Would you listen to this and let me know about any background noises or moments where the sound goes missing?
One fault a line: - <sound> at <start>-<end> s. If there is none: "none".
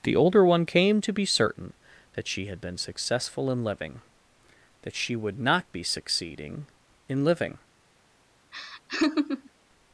- laugh at 8.5-9.5 s